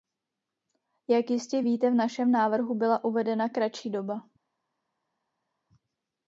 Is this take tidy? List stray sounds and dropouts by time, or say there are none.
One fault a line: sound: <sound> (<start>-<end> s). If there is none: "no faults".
no faults